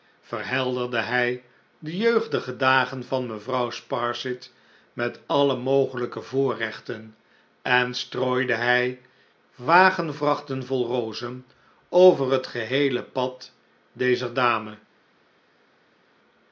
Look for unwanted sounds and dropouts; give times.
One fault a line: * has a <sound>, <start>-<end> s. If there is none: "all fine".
all fine